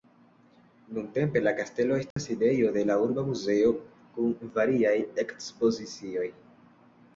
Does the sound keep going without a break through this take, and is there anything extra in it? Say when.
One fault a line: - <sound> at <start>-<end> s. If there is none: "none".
- dropout at 2.1-2.2 s